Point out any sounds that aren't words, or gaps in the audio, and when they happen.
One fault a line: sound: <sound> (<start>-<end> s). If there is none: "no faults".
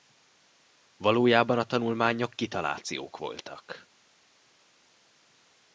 no faults